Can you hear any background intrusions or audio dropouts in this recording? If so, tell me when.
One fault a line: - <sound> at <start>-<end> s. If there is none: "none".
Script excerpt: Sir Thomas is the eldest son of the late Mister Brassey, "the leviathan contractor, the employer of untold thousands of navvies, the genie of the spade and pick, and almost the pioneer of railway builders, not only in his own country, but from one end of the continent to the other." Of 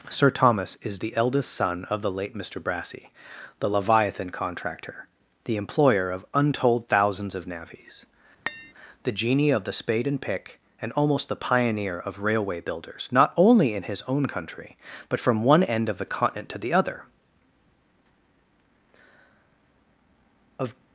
- tap at 8.5-8.7 s